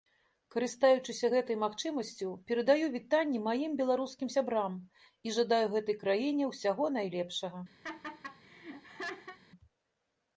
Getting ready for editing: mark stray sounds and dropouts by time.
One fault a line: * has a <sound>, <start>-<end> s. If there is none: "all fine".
* has a laugh, 7.8-9.4 s